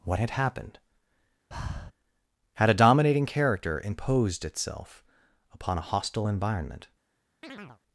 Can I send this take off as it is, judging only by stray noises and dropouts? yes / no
no